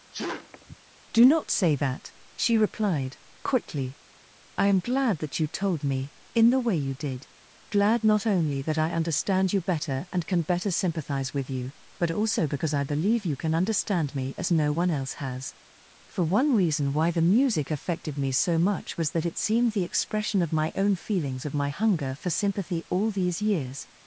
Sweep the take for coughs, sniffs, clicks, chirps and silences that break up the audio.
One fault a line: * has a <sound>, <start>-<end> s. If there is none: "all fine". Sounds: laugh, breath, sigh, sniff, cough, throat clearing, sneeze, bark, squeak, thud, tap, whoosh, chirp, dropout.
* has a sneeze, 0.1-0.8 s